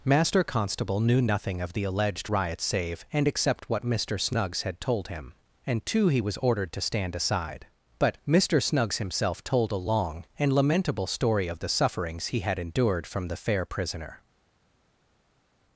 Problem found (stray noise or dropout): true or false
false